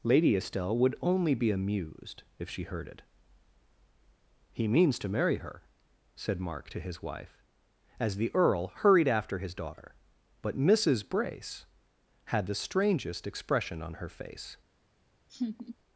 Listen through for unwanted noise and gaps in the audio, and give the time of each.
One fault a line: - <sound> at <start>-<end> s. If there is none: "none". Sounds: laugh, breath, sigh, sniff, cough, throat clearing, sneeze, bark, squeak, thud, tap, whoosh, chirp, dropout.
- laugh at 15.3-15.8 s